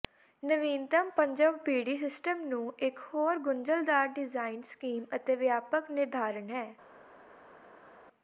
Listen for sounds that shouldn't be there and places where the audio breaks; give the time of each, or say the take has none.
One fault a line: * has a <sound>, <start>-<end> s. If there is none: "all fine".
all fine